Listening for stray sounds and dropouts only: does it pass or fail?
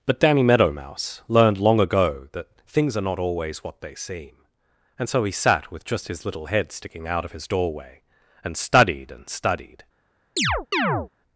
fail